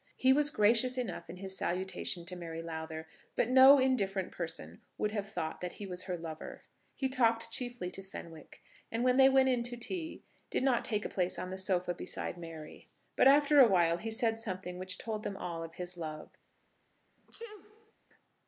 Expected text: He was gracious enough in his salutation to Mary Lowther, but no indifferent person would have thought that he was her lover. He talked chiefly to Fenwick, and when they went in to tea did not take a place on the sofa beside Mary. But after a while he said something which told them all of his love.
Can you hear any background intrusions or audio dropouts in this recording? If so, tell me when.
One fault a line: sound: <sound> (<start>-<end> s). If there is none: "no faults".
sound: sneeze (17.2-17.9 s)